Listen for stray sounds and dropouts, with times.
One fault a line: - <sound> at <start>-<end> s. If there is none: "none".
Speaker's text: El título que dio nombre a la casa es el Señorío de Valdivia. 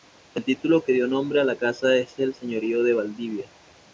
none